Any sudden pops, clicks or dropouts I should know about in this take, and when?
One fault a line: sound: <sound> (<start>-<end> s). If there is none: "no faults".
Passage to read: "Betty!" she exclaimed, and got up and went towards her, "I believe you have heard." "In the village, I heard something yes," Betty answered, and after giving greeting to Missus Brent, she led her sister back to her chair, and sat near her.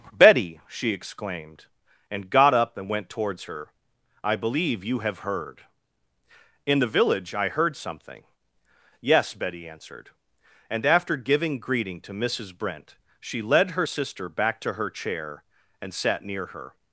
no faults